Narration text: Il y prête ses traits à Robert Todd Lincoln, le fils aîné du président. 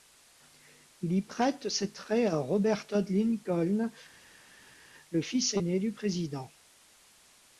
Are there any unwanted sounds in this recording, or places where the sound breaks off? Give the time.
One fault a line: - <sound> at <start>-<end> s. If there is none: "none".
none